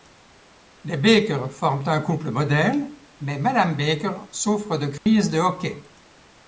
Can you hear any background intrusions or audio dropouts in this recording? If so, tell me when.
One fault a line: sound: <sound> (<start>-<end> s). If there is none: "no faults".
sound: dropout (5.0-5.1 s)